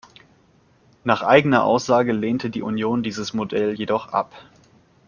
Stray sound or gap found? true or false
false